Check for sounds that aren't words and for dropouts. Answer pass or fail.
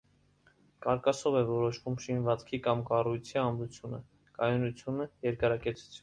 pass